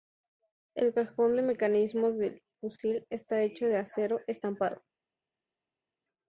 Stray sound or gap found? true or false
false